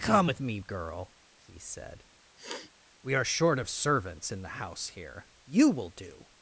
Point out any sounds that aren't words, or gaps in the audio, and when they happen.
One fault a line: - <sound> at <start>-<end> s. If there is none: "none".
- sniff at 2.4-2.7 s